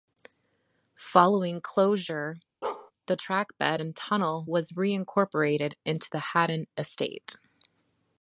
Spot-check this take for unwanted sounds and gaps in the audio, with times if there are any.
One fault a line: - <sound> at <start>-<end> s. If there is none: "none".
- bark at 2.6-2.9 s